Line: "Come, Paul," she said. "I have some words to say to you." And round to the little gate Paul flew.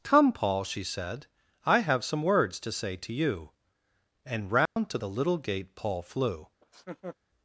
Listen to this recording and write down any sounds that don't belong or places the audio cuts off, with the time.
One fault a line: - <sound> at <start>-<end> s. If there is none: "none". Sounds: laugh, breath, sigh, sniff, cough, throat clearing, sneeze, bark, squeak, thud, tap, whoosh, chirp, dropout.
- dropout at 4.7-4.8 s
- laugh at 6.6-7.2 s